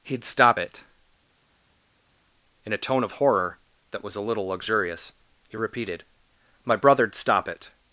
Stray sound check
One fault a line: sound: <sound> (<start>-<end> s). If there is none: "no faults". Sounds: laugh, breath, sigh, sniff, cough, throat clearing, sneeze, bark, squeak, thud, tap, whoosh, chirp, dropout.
no faults